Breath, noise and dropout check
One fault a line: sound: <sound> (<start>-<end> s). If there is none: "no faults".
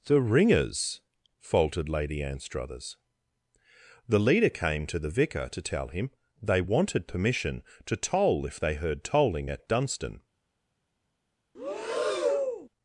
sound: breath (11.5-12.7 s)